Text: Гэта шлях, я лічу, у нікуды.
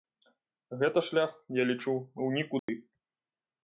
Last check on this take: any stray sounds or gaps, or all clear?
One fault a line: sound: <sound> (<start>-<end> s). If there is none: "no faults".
sound: dropout (2.6-2.7 s)